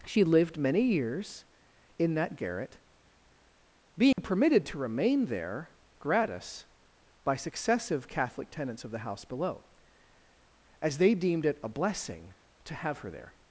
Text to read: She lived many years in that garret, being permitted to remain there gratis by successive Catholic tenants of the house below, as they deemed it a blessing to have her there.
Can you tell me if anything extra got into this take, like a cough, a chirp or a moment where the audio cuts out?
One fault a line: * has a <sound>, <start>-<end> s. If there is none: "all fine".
* has a dropout, 4.1-4.2 s